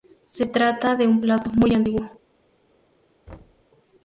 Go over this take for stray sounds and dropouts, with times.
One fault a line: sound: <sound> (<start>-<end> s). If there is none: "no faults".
sound: thud (3.3-3.6 s)